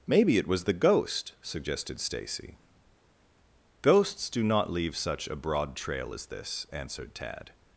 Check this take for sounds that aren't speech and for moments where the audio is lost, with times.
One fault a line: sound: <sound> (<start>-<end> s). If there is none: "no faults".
no faults